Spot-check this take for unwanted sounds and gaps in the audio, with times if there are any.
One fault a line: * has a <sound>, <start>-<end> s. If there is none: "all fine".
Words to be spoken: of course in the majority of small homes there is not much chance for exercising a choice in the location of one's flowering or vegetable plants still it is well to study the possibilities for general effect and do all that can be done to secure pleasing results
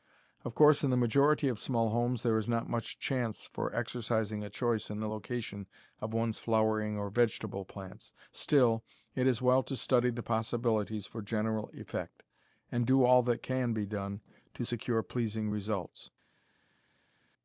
all fine